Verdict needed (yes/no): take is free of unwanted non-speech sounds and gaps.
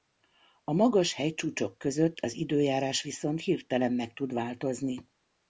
yes